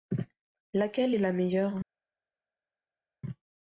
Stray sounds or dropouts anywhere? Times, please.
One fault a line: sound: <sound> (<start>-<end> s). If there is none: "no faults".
no faults